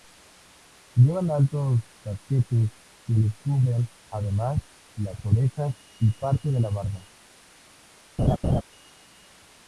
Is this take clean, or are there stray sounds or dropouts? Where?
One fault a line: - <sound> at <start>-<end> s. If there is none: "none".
- laugh at 8.2-8.6 s